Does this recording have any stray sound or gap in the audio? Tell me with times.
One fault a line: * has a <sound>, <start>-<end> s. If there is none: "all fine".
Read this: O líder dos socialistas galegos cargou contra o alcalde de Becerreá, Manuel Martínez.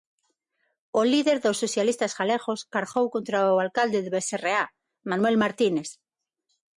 all fine